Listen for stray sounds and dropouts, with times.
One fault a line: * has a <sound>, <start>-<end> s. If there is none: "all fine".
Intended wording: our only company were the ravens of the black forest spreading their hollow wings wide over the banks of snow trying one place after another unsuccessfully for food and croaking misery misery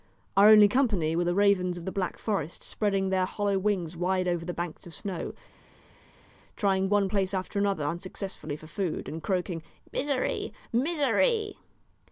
all fine